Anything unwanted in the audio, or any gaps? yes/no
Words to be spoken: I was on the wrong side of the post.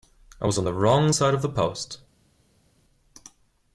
no